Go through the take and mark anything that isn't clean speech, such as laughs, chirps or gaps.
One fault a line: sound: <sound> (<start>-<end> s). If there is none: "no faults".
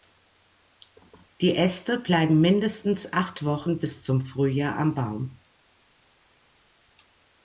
no faults